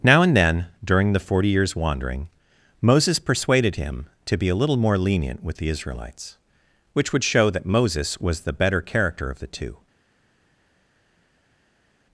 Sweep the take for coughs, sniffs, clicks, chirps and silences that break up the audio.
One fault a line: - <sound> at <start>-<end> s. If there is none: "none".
none